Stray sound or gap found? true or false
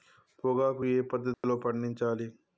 true